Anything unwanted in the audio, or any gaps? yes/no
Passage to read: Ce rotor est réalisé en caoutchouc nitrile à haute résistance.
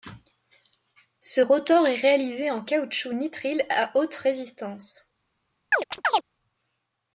yes